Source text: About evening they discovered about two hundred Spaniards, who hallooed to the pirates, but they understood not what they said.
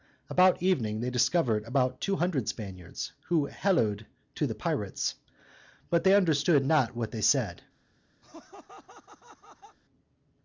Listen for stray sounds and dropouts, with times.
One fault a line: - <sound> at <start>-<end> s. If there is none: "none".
- laugh at 8.2-9.8 s